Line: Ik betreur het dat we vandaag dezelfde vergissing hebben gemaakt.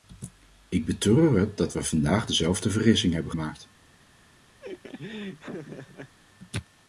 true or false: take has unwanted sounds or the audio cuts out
true